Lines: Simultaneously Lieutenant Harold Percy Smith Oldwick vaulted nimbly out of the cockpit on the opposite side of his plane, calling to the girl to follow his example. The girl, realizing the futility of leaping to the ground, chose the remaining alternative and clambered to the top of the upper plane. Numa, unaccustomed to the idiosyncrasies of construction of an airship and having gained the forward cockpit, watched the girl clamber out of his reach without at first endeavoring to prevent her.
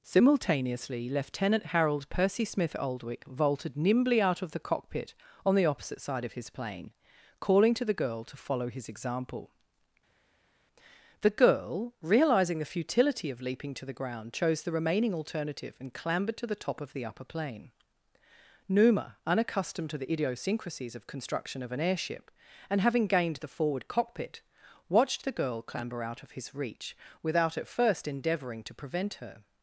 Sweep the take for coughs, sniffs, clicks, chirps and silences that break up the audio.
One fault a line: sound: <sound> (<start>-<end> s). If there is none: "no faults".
no faults